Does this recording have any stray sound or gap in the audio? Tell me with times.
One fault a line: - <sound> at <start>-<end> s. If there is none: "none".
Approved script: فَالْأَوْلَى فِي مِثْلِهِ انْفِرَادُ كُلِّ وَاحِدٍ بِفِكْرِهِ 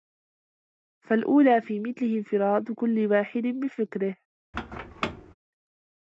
- squeak at 4.5-5.3 s